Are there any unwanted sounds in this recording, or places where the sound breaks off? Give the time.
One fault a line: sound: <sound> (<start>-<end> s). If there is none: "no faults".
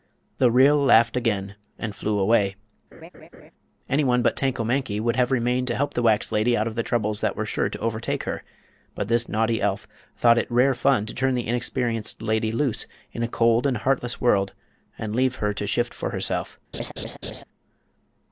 sound: laugh (2.9-3.5 s)
sound: laugh (16.7-17.4 s)